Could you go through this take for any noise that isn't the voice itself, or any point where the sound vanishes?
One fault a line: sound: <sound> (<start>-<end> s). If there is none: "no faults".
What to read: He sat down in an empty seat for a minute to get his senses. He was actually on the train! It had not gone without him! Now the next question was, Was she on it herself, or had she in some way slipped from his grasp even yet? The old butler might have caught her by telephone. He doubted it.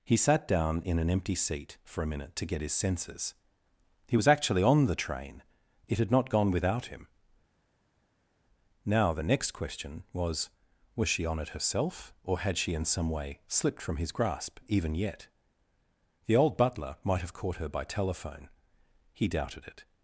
no faults